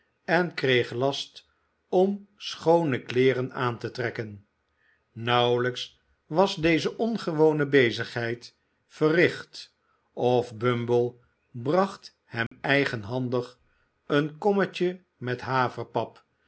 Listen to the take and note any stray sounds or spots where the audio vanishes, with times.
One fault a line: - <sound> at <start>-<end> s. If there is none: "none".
- dropout at 12.5-12.5 s